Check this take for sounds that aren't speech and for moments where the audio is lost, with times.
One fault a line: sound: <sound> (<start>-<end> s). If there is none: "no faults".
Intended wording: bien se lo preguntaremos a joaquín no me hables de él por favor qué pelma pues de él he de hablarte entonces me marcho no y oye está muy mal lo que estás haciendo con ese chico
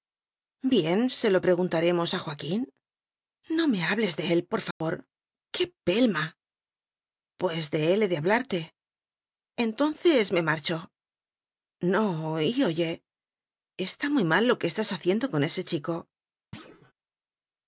sound: dropout (4.7-4.8 s)
sound: thud (16.5-16.9 s)